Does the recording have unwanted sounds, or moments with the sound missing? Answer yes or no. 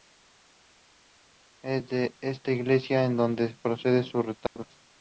yes